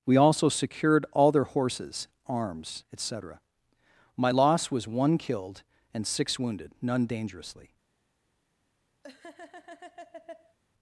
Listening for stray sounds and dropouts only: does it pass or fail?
fail